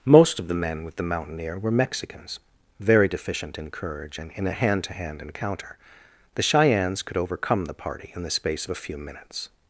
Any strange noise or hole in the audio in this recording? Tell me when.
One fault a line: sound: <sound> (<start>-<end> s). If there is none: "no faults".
no faults